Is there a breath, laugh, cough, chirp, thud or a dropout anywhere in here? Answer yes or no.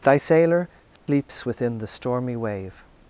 yes